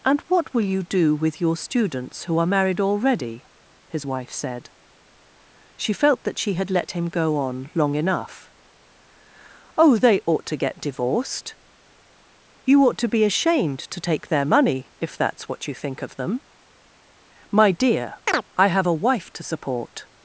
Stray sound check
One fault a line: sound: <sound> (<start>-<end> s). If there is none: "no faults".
sound: chirp (18.3-18.4 s)